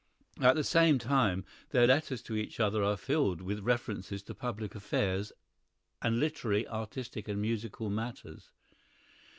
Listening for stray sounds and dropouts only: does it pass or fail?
pass